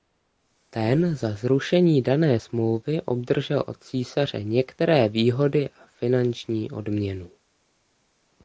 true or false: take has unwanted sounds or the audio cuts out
false